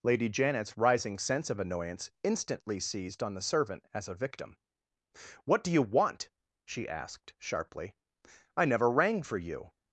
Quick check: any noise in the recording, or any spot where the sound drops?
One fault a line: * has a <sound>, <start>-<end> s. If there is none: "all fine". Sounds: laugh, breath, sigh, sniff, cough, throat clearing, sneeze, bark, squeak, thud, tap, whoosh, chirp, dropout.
all fine